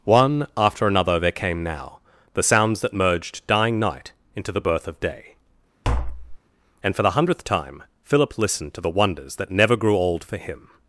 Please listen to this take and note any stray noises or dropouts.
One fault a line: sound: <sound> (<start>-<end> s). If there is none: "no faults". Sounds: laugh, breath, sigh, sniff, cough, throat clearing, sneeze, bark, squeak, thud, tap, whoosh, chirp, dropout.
sound: tap (5.8-6.4 s)